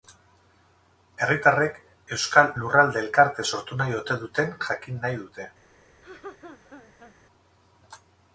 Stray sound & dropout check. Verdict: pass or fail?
fail